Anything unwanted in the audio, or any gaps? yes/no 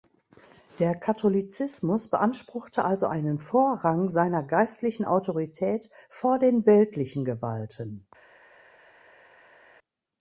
no